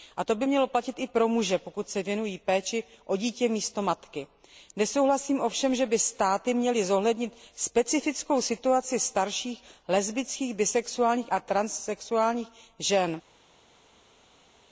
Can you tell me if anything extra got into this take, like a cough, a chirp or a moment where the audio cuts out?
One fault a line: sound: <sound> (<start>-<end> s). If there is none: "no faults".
no faults